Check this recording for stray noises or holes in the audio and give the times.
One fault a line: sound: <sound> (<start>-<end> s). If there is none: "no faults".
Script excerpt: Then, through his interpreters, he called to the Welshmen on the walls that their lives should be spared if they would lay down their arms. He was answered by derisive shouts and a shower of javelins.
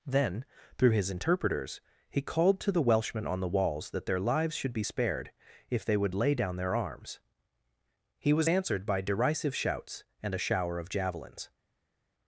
no faults